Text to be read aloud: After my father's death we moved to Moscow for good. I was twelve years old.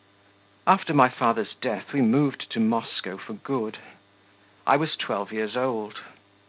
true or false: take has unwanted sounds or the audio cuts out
false